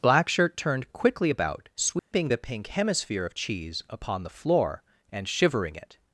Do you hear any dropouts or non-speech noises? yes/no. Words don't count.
yes